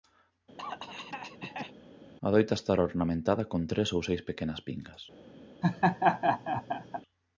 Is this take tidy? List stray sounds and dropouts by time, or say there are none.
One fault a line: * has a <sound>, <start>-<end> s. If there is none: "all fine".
* has a cough, 0.6-1.7 s
* has a laugh, 5.6-7.0 s